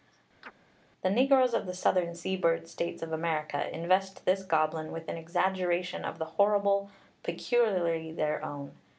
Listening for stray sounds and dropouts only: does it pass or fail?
fail